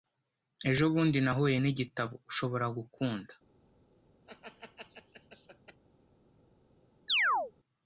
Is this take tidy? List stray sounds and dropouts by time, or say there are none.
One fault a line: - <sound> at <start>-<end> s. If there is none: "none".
- laugh at 4.3-5.8 s
- chirp at 7.1-7.5 s